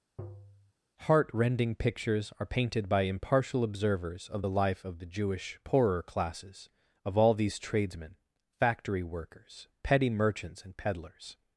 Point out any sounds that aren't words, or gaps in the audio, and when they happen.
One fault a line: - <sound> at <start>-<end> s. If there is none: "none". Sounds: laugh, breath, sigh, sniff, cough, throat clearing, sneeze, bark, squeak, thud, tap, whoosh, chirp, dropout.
- tap at 0.2-0.7 s